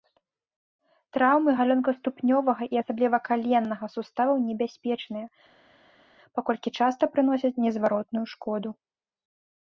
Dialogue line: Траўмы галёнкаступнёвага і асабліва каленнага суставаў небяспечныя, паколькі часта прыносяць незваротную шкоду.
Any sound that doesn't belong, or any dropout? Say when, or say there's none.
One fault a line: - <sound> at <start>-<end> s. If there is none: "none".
none